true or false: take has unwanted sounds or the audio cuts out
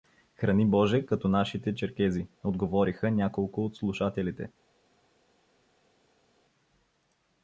false